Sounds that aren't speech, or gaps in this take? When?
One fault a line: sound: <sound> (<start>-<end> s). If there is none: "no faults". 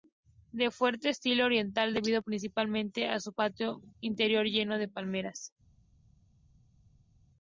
no faults